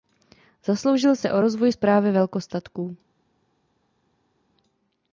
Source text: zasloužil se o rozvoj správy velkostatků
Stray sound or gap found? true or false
false